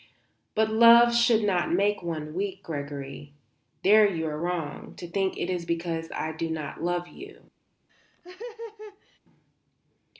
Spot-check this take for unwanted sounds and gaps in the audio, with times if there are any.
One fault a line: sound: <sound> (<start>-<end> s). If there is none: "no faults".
sound: laugh (7.9-9.2 s)